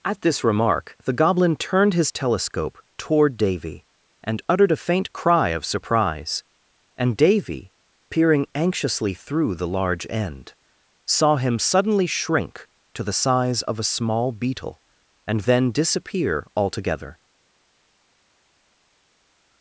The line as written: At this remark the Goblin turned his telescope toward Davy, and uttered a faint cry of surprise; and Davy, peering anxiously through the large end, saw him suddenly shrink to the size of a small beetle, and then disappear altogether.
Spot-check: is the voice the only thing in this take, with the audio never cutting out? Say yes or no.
yes